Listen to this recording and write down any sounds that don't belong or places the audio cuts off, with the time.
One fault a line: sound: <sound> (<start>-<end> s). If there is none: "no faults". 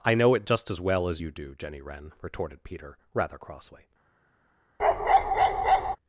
sound: bark (4.8-6.0 s)